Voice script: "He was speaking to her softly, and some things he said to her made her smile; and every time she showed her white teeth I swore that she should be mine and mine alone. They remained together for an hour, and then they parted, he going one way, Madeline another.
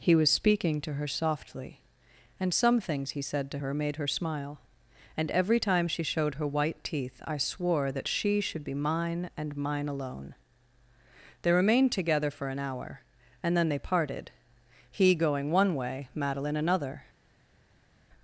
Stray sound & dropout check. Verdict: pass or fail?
pass